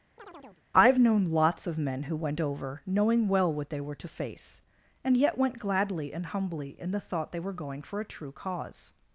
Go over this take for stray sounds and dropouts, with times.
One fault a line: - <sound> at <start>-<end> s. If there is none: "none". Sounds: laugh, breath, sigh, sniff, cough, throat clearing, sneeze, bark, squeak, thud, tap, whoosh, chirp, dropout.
- chirp at 0.2-0.6 s